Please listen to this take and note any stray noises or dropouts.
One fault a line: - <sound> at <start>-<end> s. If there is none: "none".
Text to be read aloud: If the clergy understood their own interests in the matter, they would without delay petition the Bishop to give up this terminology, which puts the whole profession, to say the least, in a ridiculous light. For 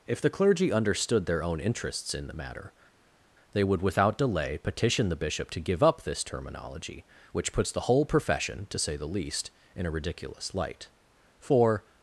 none